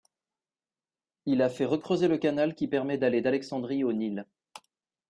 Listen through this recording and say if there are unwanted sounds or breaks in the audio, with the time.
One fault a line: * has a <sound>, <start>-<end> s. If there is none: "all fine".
all fine